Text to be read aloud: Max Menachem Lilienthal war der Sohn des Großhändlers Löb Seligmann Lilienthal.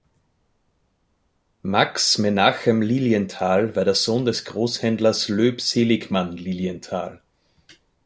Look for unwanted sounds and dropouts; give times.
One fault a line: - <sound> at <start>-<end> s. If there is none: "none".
none